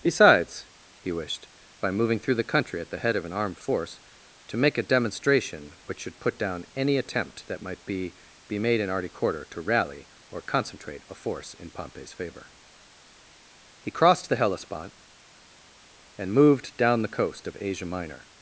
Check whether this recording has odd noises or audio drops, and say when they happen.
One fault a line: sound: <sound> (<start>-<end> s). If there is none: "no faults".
no faults